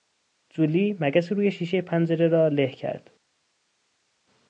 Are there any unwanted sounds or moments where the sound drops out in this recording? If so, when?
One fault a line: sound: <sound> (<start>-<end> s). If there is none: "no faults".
no faults